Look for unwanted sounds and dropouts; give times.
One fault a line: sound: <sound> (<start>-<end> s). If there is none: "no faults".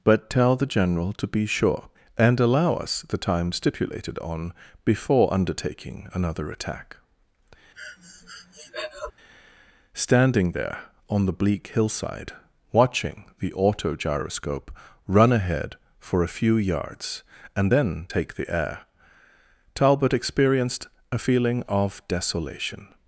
sound: breath (7.7-9.1 s)